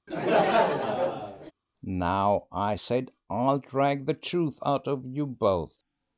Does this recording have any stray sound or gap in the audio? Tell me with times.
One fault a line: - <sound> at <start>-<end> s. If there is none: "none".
- laugh at 0.1-1.5 s